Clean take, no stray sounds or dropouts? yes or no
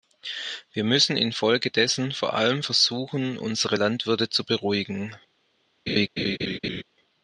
no